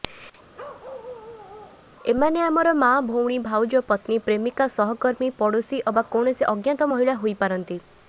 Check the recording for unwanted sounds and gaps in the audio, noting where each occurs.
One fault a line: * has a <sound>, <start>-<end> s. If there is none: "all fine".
* has a bark, 0.6-1.9 s